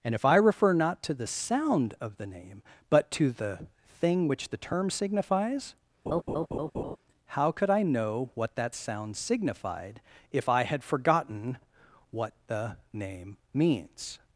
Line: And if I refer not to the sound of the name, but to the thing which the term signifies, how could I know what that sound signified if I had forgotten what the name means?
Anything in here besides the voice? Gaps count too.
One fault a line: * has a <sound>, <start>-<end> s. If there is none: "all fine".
* has a laugh, 6.1-7.0 s